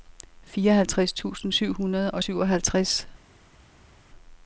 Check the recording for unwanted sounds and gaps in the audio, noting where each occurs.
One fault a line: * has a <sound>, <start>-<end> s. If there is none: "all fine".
all fine